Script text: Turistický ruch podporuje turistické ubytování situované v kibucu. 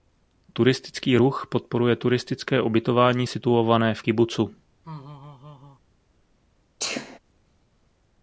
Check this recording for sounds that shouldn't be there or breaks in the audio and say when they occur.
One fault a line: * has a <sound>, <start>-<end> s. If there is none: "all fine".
* has a laugh, 4.8-5.8 s
* has a sneeze, 6.8-7.2 s